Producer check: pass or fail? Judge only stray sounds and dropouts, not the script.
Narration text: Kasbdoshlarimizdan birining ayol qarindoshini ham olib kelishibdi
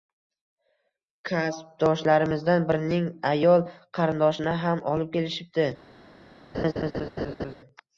fail